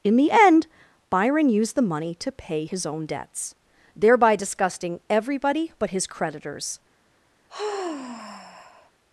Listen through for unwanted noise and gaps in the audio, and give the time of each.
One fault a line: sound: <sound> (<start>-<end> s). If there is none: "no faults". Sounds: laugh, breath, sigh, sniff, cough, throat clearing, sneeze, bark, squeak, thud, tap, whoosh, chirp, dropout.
sound: sigh (7.5-8.9 s)